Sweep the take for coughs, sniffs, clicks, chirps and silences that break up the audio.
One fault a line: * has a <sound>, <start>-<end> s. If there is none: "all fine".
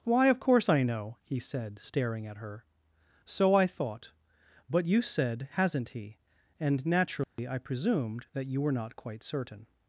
* has a dropout, 7.2-7.4 s